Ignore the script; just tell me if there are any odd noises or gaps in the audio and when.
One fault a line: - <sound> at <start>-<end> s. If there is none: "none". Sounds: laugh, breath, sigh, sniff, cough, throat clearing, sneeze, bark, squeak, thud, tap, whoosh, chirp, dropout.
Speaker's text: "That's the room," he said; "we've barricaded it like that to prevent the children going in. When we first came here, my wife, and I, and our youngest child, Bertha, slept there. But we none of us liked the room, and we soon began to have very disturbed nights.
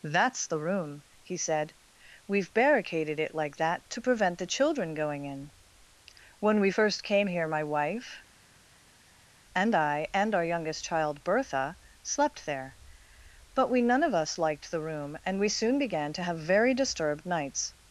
none